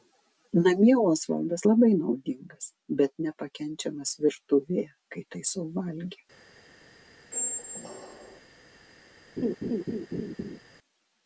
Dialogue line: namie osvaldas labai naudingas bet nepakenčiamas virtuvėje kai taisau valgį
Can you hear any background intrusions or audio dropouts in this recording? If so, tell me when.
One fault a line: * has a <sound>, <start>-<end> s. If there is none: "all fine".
* has a squeak, 7.3-8.4 s
* has a laugh, 9.4-10.6 s